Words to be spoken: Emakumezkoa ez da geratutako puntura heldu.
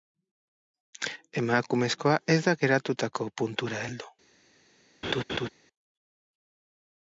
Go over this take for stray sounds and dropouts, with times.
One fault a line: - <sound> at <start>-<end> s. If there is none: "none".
- laugh at 5.0-5.5 s